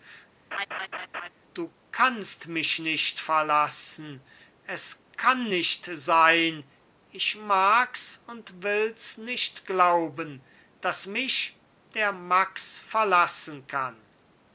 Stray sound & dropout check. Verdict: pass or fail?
fail